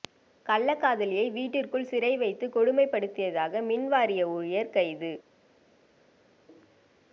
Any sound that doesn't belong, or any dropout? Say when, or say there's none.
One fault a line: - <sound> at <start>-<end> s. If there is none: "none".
none